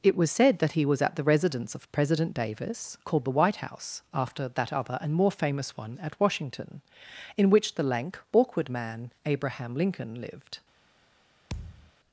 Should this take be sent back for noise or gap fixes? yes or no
yes